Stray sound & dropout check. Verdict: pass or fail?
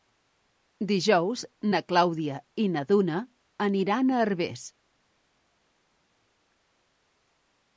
pass